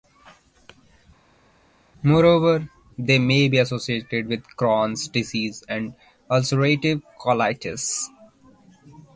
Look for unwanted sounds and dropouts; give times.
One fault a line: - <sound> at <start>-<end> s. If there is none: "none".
none